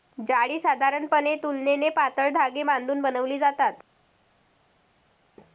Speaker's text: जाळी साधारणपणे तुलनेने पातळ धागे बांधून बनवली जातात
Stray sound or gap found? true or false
false